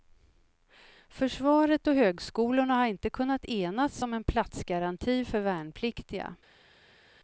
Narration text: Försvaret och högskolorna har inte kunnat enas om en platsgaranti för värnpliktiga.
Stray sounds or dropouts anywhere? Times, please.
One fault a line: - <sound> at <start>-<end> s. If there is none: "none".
none